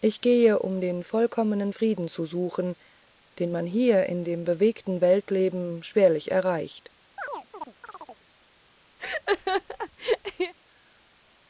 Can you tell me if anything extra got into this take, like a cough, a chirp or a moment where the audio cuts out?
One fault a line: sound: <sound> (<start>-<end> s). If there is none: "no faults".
sound: chirp (7.2-8.2 s)
sound: laugh (9.0-10.5 s)